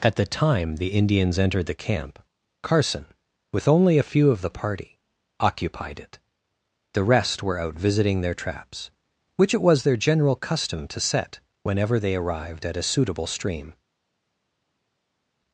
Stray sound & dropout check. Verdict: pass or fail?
pass